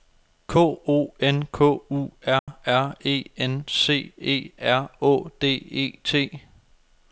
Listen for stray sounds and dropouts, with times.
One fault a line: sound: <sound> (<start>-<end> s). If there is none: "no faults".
sound: dropout (2.4-2.5 s)